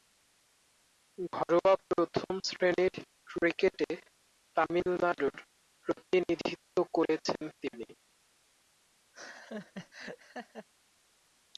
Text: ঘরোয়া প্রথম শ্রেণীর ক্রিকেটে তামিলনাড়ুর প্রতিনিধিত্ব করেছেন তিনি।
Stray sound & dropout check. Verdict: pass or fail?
fail